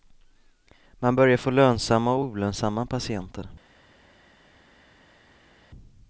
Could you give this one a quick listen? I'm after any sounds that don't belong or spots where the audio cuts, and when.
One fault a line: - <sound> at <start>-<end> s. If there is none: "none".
none